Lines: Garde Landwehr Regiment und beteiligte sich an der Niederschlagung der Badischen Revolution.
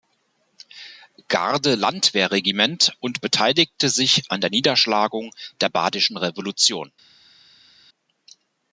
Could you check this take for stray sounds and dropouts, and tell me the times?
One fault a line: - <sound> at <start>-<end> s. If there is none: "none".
none